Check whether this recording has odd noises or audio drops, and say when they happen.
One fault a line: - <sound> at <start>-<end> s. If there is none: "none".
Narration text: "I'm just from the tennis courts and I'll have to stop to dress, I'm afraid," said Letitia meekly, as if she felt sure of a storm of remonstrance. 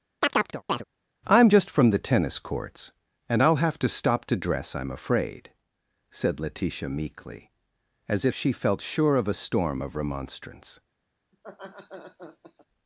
- chirp at 0.2-0.8 s
- laugh at 11.3-12.7 s